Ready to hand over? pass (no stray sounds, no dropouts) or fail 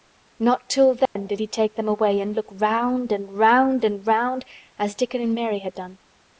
fail